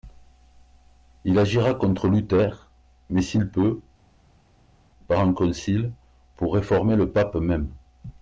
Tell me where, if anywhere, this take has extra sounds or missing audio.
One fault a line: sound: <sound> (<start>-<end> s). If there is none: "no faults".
no faults